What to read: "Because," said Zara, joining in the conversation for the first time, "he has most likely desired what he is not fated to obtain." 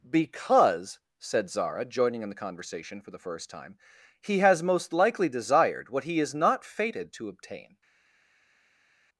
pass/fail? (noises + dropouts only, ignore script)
pass